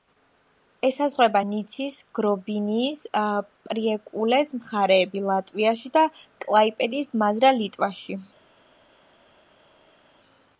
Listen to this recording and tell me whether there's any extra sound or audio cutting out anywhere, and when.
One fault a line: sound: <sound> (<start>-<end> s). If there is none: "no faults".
no faults